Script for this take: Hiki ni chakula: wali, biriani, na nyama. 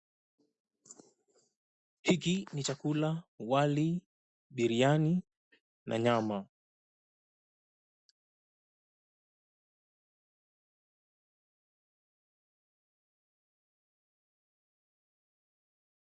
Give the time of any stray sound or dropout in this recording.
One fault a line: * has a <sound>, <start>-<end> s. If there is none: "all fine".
all fine